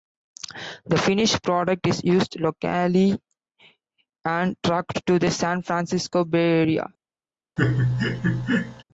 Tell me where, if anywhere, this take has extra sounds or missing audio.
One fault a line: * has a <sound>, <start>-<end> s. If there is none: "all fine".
* has a laugh, 7.6-8.8 s